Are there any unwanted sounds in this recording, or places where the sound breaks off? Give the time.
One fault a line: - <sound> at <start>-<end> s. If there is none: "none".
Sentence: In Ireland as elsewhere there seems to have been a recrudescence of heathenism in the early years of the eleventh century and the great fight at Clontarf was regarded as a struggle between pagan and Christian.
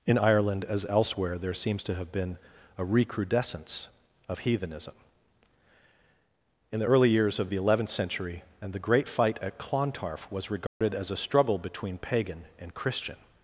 - dropout at 10.7-10.8 s